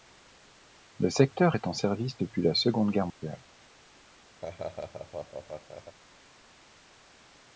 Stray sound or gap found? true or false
true